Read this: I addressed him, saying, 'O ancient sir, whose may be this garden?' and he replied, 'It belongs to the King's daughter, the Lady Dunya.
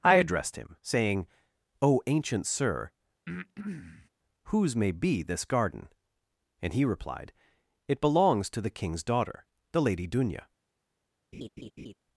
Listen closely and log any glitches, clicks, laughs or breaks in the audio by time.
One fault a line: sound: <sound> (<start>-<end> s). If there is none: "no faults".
sound: breath (3.3-4.1 s)
sound: laugh (11.3-11.9 s)